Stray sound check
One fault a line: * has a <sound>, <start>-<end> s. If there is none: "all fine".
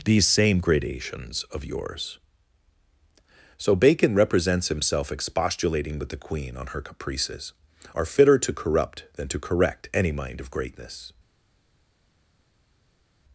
all fine